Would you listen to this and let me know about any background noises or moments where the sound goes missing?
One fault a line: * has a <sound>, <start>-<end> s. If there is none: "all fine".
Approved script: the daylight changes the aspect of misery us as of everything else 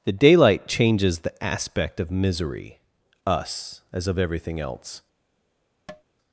* has a tap, 5.9-6.0 s